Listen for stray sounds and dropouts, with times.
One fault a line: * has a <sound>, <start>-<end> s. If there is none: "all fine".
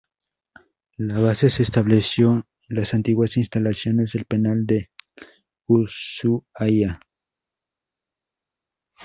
all fine